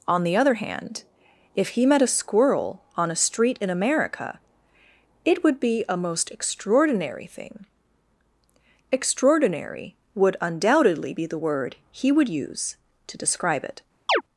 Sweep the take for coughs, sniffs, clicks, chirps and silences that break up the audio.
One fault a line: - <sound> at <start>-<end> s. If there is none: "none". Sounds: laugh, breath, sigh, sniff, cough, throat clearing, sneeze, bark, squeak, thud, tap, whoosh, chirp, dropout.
- chirp at 14.1-14.2 s